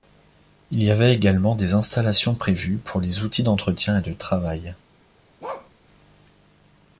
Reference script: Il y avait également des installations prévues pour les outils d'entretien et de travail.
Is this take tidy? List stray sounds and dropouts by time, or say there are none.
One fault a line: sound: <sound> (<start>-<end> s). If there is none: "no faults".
sound: bark (5.4-5.7 s)